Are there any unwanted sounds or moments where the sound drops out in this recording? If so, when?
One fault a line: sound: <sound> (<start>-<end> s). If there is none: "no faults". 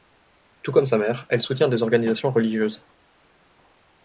no faults